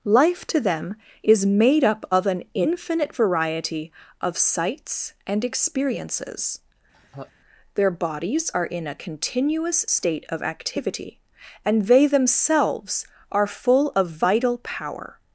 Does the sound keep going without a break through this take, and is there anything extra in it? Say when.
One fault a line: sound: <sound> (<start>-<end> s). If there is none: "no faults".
sound: laugh (6.9-7.3 s)